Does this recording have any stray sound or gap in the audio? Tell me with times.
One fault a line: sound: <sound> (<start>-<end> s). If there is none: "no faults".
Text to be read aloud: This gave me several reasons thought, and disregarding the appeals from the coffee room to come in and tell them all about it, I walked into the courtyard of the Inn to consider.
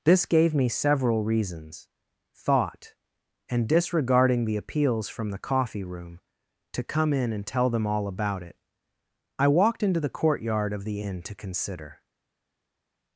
no faults